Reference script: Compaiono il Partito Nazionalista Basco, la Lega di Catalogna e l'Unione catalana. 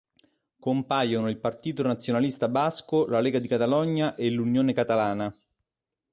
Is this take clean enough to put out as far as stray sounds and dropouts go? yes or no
yes